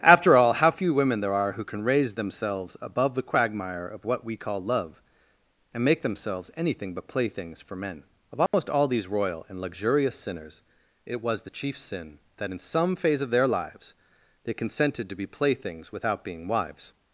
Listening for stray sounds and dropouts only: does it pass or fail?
fail